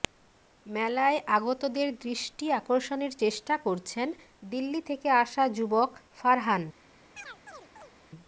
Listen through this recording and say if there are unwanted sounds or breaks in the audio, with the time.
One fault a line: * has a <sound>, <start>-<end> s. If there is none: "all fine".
* has a chirp, 7.2-7.9 s